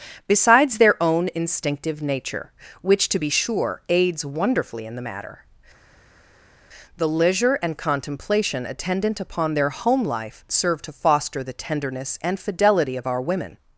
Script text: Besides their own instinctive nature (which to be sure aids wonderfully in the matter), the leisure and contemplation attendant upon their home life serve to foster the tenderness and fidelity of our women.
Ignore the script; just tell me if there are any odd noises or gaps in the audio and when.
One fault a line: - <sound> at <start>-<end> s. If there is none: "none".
none